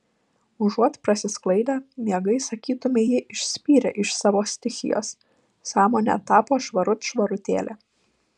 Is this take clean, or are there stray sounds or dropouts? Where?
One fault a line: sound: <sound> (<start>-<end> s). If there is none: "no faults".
no faults